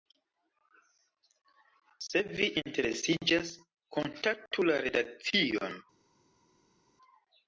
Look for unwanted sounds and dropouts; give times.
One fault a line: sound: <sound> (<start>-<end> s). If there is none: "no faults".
no faults